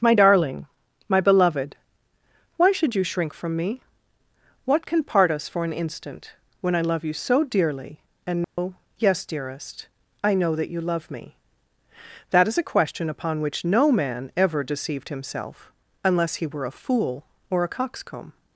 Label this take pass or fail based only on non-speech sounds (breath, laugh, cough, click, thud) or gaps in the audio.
fail